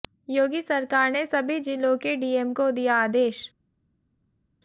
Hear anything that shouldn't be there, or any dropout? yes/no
no